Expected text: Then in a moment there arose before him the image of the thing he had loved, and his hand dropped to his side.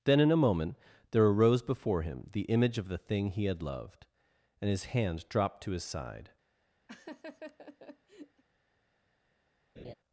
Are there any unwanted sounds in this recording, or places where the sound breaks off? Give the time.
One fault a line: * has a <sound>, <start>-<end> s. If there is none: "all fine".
* has a laugh, 6.9-8.4 s
* has a laugh, 9.8-9.9 s